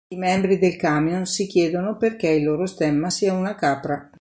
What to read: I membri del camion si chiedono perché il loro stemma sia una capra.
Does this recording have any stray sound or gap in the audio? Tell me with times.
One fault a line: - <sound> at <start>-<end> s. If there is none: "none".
none